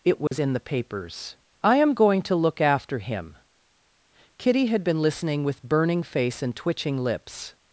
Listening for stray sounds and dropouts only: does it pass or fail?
fail